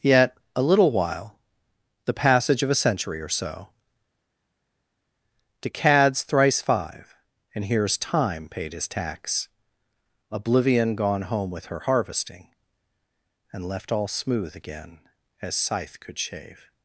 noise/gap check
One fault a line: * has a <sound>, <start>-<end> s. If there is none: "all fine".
all fine